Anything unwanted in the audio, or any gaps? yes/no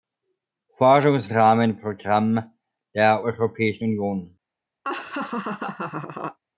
yes